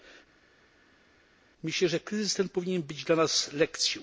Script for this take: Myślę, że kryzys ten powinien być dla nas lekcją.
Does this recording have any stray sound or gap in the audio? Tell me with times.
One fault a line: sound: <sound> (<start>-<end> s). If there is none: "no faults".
no faults